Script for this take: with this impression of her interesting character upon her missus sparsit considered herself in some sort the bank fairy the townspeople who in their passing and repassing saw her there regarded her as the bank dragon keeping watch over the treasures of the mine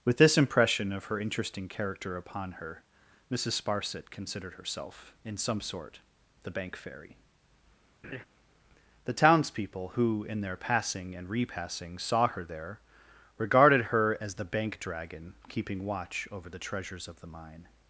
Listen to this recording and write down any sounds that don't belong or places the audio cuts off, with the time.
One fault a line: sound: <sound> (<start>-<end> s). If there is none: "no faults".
sound: laugh (8.0-8.3 s)